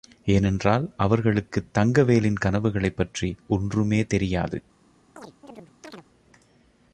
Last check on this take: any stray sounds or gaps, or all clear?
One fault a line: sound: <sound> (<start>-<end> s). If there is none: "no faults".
sound: chirp (5.2-6.1 s)